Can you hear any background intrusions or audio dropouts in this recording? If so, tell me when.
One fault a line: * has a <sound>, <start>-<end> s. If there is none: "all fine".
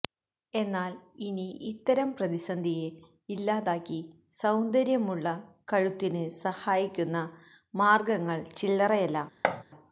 * has a thud, 9.4-9.6 s